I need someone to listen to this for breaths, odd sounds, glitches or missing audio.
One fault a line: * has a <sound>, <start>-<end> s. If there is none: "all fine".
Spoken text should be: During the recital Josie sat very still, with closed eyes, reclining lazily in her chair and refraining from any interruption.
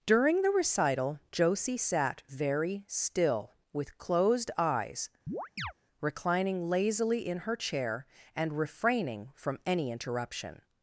* has a chirp, 5.3-5.7 s